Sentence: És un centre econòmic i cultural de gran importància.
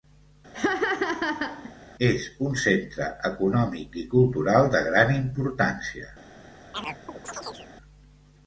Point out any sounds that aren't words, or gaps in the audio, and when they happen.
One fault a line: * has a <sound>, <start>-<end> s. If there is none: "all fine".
* has a laugh, 0.5-1.7 s
* has a chirp, 6.7-7.7 s